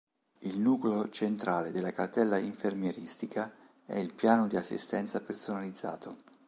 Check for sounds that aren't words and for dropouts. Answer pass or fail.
pass